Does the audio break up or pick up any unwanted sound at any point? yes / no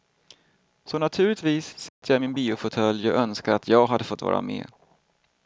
yes